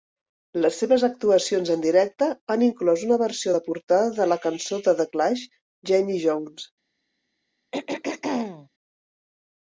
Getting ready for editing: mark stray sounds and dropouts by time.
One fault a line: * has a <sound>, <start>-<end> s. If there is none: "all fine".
* has a throat clearing, 7.7-8.7 s